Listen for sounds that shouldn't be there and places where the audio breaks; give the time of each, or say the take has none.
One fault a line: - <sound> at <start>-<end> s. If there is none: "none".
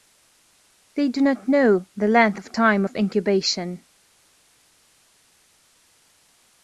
none